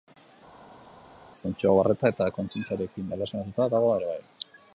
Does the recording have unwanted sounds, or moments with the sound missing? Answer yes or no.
no